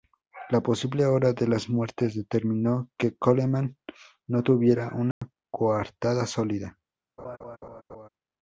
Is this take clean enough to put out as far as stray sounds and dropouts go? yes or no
no